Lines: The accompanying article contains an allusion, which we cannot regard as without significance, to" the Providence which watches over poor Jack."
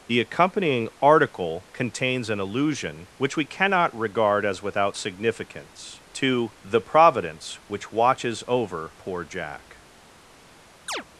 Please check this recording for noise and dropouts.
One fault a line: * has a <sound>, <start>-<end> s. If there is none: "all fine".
* has a chirp, 10.9-11.0 s